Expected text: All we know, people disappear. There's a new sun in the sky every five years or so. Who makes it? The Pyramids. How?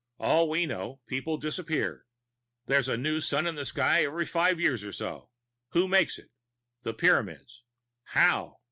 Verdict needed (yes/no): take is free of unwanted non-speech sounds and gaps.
yes